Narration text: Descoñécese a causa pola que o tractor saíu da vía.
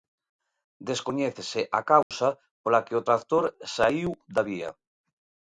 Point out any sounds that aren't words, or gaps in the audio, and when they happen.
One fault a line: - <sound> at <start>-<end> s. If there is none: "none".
- dropout at 2.0-2.1 s